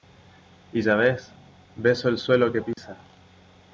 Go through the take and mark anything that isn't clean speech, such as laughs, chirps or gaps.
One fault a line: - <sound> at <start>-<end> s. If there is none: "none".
- dropout at 2.7-2.8 s